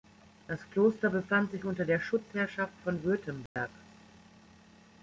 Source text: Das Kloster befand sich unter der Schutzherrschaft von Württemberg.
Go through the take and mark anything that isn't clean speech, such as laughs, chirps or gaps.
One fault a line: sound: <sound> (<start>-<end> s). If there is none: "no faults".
sound: dropout (3.5-3.6 s)